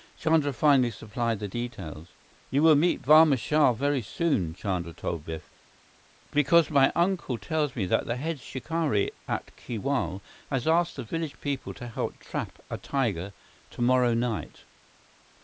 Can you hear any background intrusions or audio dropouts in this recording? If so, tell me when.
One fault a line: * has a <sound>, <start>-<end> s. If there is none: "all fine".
all fine